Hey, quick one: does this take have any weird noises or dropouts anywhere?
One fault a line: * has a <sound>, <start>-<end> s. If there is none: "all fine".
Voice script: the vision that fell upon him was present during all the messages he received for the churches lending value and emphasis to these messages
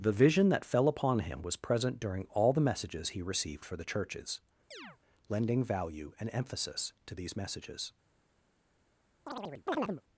* has a chirp, 4.7-5.0 s
* has a chirp, 9.3-10.0 s